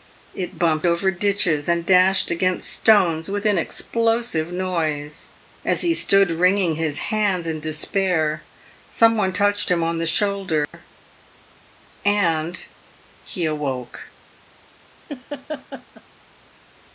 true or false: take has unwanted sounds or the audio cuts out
true